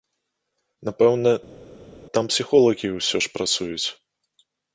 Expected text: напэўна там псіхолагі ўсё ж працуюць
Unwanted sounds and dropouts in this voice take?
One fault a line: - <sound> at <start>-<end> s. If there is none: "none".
none